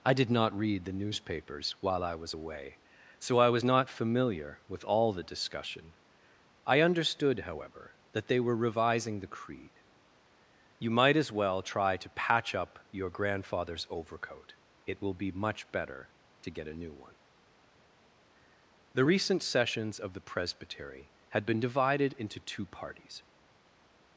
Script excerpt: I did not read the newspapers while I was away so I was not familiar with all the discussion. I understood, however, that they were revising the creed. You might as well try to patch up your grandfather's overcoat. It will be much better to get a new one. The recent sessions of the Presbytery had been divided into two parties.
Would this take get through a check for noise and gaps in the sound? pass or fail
pass